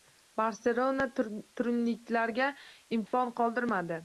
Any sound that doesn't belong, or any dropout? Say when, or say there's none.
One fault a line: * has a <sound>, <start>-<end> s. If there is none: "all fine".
* has a dropout, 3.1-3.1 s